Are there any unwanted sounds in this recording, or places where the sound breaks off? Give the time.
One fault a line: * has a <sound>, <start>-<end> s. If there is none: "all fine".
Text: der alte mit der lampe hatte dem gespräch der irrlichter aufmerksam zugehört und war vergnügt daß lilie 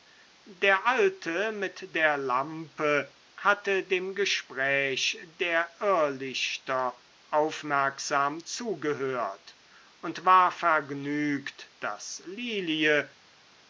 all fine